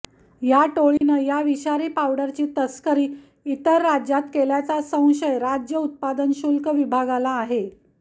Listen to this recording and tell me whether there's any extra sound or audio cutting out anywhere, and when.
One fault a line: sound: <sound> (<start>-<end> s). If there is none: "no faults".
sound: dropout (1.0-1.0 s)